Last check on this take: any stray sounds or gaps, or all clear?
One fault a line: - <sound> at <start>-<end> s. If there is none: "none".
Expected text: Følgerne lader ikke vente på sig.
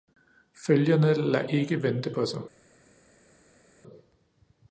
none